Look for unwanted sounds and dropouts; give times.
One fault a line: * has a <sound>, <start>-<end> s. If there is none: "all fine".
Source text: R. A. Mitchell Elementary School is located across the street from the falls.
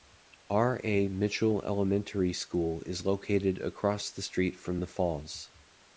all fine